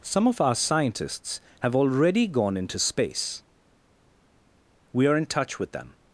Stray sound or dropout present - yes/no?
no